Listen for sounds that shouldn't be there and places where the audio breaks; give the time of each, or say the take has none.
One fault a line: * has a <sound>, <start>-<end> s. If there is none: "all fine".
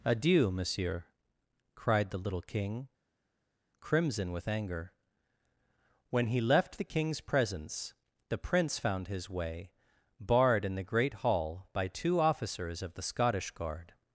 all fine